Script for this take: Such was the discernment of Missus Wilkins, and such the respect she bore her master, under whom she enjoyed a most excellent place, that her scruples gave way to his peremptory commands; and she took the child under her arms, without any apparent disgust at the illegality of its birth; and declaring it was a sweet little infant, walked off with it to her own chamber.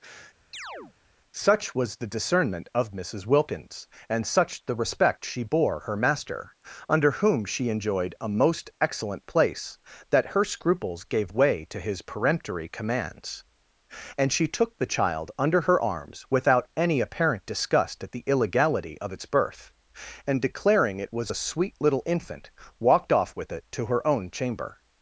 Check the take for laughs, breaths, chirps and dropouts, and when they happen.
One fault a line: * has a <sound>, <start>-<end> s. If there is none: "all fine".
* has a chirp, 0.5-0.9 s